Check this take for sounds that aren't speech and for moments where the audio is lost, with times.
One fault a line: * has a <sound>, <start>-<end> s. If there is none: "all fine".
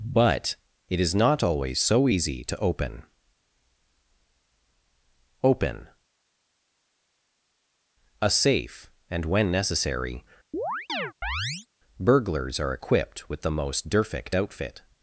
* has a chirp, 10.5-11.7 s